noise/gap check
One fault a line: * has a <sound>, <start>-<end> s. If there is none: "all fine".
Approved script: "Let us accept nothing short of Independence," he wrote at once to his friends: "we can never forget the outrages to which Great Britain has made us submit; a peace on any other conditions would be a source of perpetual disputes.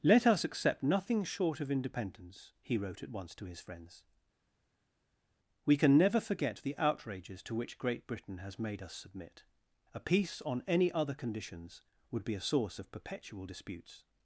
all fine